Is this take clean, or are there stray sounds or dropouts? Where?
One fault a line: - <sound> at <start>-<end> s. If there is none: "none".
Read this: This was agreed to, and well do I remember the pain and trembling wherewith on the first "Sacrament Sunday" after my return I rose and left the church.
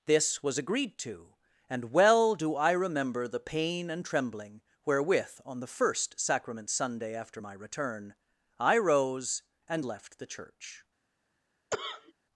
- cough at 11.7-12.1 s